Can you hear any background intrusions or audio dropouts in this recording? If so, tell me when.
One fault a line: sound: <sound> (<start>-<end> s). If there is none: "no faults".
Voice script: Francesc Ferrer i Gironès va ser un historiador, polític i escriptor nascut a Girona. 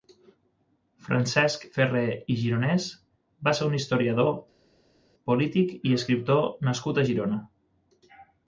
no faults